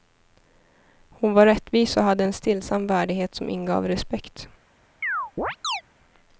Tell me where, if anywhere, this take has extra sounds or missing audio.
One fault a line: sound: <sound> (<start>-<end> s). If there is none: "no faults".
sound: chirp (5.0-5.8 s)